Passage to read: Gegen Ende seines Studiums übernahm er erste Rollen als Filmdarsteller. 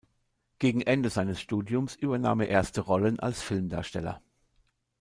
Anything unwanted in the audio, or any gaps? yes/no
no